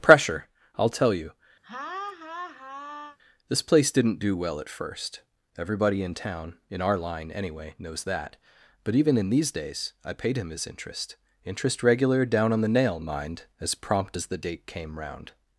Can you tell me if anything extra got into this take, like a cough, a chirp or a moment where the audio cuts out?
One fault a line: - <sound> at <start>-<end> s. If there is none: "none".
- laugh at 1.6-3.2 s